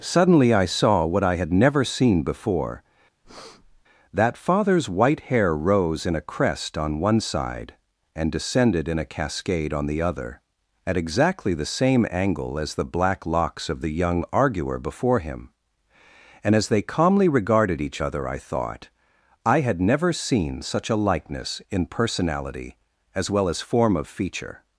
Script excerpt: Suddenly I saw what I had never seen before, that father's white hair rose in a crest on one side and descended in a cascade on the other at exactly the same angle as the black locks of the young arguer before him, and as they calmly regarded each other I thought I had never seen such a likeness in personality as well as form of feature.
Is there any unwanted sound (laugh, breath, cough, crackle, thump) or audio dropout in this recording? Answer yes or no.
yes